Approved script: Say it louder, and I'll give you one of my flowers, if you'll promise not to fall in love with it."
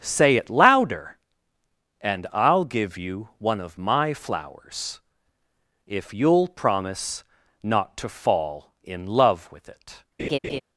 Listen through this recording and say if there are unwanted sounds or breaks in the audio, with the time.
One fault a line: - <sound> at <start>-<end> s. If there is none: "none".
- laugh at 10.2-10.6 s